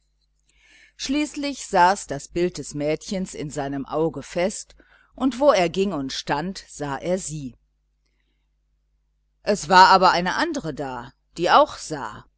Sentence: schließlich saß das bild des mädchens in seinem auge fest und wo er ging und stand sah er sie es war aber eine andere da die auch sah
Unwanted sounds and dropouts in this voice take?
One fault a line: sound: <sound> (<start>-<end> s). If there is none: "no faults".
no faults